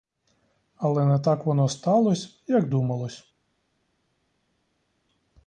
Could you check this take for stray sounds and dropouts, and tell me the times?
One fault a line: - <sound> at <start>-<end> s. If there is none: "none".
none